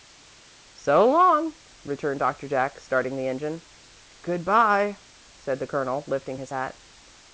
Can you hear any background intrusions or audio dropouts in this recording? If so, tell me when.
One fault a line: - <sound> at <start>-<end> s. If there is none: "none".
none